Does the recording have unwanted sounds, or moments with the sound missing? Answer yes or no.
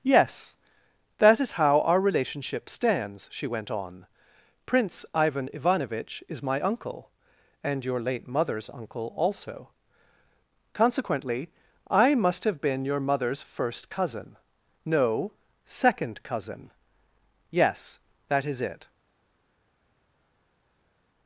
no